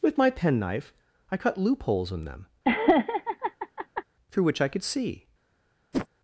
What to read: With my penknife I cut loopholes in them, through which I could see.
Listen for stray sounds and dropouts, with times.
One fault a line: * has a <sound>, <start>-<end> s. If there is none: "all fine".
* has a laugh, 2.6-4.0 s
* has a whoosh, 5.9-6.1 s